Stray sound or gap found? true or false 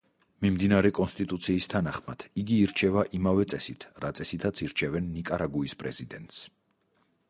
true